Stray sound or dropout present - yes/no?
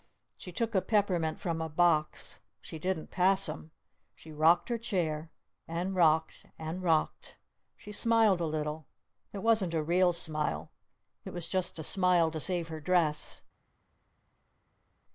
no